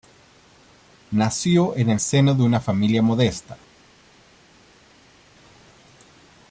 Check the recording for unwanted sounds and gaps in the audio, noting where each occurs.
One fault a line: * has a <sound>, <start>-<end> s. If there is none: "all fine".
all fine